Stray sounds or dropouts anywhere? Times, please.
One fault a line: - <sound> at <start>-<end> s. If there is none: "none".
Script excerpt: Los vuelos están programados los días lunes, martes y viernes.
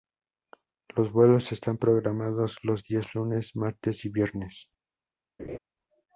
- laugh at 5.4-5.6 s